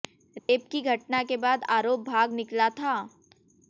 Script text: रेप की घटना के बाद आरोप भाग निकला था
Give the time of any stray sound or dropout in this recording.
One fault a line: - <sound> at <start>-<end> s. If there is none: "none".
- dropout at 0.4-0.5 s